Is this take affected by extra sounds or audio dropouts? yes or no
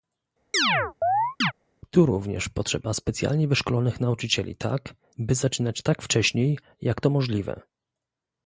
yes